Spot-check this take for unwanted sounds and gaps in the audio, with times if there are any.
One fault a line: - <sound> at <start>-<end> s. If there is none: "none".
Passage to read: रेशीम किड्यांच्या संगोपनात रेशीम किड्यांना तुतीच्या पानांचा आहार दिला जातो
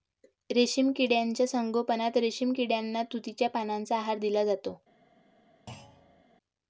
- thud at 5.7-6.2 s